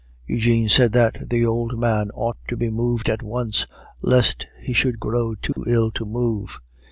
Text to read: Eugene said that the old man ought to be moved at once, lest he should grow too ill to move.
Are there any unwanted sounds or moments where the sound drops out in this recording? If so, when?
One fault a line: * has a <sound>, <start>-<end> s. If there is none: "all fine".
* has a dropout, 5.5-5.6 s